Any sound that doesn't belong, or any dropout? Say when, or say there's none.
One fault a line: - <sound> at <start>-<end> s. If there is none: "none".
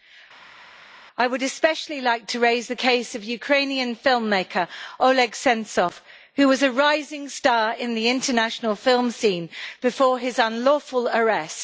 none